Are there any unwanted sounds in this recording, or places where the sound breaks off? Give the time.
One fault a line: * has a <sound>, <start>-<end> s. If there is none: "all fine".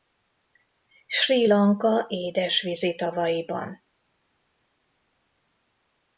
all fine